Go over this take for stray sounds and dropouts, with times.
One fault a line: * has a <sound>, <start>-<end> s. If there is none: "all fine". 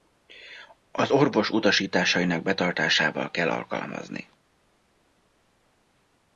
all fine